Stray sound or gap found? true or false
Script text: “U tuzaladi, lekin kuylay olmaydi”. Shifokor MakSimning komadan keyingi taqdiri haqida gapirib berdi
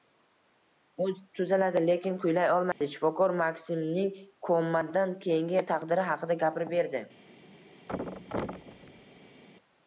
true